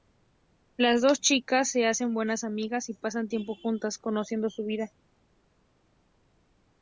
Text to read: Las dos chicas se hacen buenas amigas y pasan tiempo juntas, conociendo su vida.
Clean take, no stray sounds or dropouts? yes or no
yes